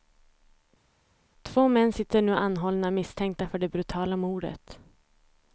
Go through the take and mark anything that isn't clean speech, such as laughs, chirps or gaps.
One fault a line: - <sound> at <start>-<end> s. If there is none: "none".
none